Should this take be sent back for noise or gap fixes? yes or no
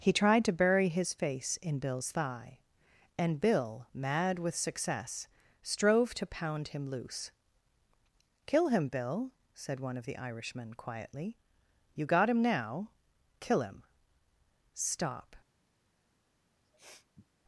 yes